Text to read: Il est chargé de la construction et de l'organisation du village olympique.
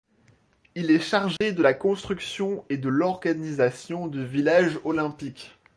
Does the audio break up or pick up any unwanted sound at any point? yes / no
yes